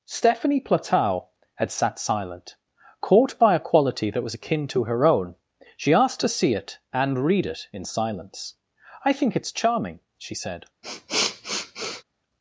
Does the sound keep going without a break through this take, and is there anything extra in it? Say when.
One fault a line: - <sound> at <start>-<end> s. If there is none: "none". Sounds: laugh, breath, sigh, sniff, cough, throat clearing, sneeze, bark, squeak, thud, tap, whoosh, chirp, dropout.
- sniff at 10.8-12.0 s